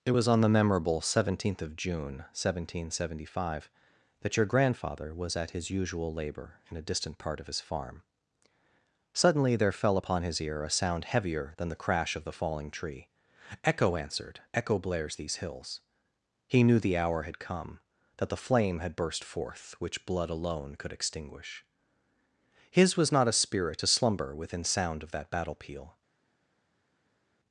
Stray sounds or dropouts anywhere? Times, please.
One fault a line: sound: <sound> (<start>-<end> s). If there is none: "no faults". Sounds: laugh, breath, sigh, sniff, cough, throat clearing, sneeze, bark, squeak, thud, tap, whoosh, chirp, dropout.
no faults